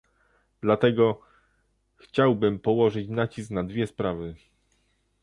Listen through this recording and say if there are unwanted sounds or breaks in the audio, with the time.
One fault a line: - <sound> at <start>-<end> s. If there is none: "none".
none